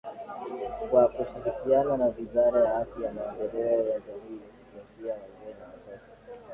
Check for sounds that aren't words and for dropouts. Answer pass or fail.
pass